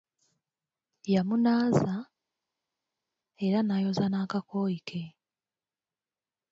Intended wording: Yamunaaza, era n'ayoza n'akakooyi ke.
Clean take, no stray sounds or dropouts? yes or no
yes